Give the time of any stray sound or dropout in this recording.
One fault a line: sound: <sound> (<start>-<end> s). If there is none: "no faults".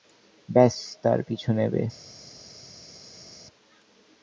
no faults